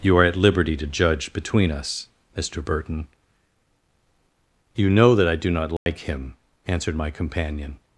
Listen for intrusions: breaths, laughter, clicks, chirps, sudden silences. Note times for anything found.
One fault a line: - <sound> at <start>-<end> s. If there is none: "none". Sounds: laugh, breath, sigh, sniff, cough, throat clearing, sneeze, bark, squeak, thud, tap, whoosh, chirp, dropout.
- dropout at 5.8-5.9 s